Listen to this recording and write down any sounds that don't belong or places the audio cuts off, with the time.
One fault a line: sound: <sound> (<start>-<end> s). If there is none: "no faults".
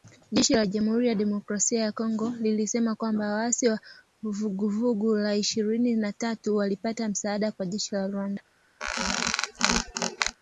sound: squeak (8.8-10.4 s)